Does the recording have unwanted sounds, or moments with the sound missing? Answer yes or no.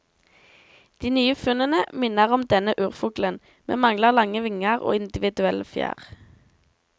no